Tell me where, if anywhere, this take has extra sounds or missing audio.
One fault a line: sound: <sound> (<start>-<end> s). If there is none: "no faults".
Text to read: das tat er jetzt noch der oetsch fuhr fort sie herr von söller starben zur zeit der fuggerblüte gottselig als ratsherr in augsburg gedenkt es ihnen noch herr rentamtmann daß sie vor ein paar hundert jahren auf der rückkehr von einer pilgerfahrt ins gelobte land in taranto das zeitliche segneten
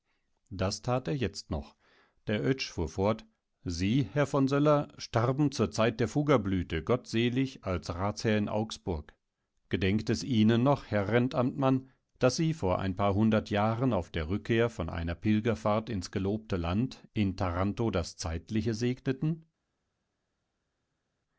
no faults